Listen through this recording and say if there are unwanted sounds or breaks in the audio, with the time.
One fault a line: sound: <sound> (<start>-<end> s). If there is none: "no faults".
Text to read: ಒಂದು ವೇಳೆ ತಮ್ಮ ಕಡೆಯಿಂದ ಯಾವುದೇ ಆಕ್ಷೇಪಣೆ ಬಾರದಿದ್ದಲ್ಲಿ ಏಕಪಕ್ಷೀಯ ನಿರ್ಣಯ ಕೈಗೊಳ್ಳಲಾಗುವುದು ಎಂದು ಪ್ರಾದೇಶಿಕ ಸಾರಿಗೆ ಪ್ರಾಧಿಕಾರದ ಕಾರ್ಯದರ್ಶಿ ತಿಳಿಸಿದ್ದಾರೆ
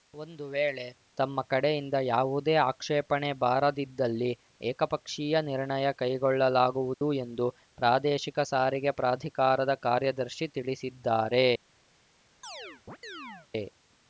sound: dropout (6.9-7.0 s)
sound: chirp (12.4-13.5 s)